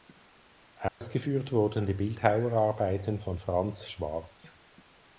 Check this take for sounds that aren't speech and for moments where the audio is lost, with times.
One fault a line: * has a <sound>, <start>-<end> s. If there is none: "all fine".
* has a dropout, 0.9-1.0 s